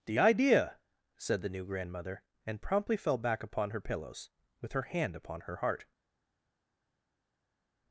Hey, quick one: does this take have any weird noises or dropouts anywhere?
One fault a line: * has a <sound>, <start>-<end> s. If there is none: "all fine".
all fine